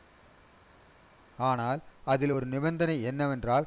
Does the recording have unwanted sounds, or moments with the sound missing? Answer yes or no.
no